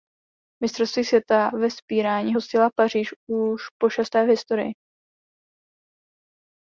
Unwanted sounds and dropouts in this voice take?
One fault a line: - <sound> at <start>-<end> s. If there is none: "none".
none